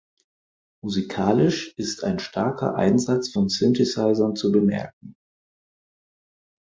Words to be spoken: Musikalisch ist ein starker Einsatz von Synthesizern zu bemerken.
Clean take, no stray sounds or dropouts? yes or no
yes